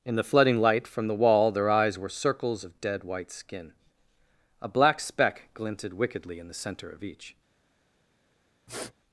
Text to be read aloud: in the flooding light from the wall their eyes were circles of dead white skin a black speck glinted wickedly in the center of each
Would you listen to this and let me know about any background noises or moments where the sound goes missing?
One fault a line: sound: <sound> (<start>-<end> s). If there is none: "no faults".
sound: sniff (8.7-8.9 s)